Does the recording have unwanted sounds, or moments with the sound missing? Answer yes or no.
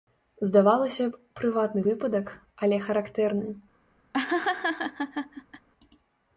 yes